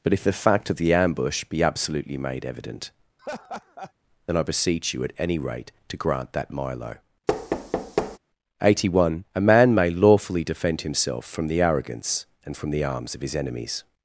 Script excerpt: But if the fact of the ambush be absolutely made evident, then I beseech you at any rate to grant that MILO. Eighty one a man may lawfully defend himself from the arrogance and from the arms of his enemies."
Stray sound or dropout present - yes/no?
yes